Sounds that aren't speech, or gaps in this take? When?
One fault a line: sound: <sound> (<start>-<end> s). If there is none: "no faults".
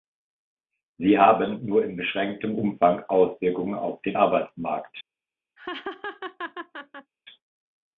sound: laugh (5.6-7.1 s)